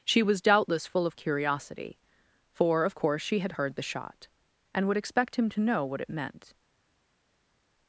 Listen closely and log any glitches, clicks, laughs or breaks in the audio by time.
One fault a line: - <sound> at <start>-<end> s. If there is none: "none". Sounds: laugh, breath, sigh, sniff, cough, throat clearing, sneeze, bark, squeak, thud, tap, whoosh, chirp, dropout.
none